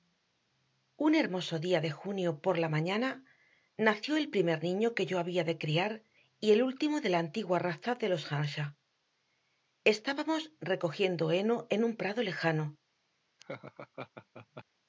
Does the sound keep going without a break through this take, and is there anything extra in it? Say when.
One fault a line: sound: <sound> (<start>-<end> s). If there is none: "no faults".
sound: laugh (13.4-14.6 s)